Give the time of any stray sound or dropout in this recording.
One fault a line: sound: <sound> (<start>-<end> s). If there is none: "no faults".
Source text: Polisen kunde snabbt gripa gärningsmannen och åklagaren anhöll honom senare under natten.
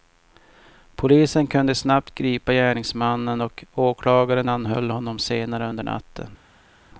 no faults